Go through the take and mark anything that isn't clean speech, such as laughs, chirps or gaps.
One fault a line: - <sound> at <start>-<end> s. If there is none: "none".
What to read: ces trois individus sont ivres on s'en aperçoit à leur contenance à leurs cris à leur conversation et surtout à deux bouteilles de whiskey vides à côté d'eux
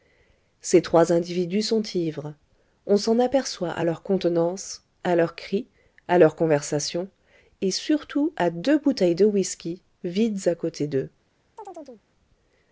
- chirp at 11.6-12.0 s